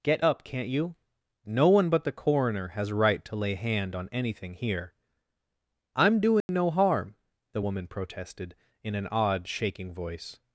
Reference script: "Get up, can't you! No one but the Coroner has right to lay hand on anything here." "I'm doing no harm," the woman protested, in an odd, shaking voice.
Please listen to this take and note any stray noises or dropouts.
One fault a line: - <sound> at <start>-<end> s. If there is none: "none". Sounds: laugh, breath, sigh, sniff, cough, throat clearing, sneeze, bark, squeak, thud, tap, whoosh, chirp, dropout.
- dropout at 6.4-6.5 s